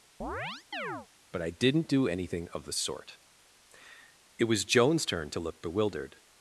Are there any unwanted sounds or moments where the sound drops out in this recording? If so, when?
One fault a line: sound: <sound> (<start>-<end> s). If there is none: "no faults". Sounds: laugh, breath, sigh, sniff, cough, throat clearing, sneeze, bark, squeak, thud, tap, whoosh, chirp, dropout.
sound: chirp (0.2-1.1 s)